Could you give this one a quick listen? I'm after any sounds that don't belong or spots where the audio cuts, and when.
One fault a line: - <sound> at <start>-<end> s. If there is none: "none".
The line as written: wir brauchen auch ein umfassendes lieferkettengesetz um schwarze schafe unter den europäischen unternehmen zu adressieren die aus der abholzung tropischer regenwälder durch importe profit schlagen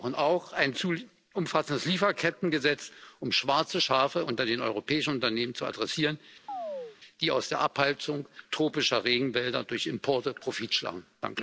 - chirp at 6.5-7.0 s